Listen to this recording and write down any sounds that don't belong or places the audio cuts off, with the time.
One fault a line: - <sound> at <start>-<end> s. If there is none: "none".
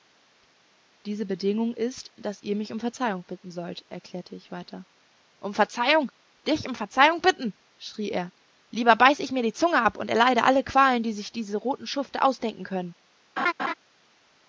- laugh at 13.4-13.7 s